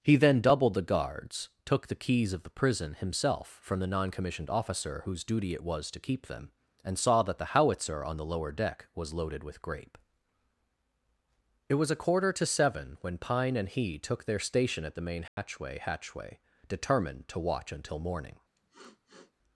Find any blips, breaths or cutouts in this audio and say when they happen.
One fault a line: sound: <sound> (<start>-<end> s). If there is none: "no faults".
sound: dropout (15.3-15.4 s)
sound: sniff (18.6-19.3 s)